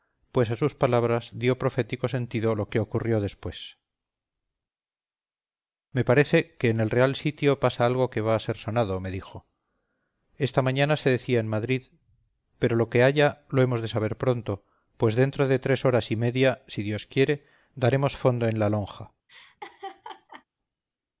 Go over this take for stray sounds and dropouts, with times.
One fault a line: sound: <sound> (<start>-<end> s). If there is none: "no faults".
sound: laugh (19.3-20.4 s)